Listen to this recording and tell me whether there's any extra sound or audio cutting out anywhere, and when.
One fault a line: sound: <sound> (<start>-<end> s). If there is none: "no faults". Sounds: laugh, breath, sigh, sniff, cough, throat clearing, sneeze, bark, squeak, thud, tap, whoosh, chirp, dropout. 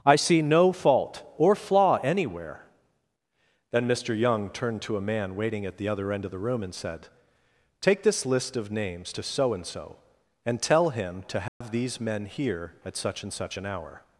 sound: dropout (11.5-11.6 s)